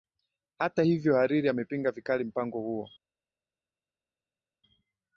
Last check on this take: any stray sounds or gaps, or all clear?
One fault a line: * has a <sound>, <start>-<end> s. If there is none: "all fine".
all fine